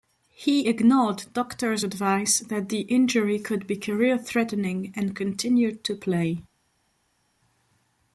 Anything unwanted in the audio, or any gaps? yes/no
no